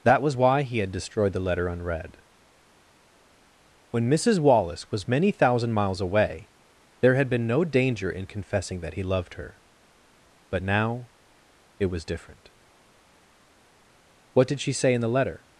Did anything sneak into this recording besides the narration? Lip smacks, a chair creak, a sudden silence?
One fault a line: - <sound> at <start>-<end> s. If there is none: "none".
none